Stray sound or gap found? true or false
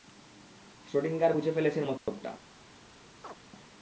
true